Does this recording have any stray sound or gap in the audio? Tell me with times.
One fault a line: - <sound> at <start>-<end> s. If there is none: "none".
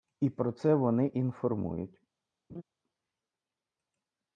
- laugh at 2.5-2.6 s